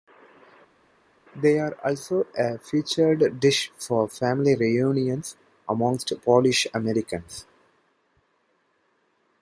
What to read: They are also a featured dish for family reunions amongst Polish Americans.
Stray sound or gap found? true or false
false